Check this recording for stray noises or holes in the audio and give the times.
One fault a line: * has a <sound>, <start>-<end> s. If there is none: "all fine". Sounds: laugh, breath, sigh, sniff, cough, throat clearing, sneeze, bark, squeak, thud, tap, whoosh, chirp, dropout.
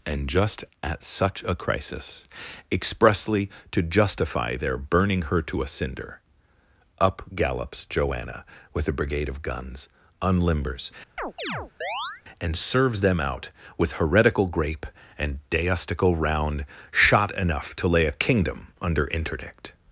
* has a chirp, 11.2-12.2 s